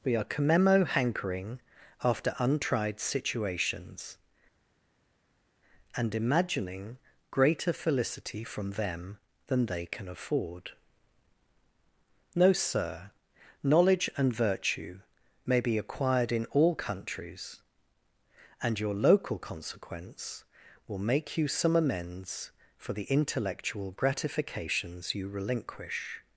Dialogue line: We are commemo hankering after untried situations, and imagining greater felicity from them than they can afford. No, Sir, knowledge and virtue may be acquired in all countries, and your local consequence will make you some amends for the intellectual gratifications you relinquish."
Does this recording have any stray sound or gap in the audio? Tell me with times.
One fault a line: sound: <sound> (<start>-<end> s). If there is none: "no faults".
no faults